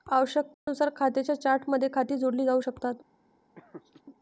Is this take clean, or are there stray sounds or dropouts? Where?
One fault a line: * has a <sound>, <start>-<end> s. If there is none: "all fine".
* has a dropout, 0.5-0.7 s
* has a laugh, 3.6-4.0 s